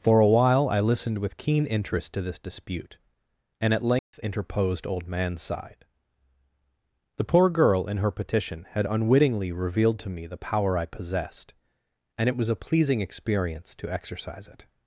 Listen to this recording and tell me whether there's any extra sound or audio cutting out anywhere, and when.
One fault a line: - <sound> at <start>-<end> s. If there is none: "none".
- dropout at 4.0-4.1 s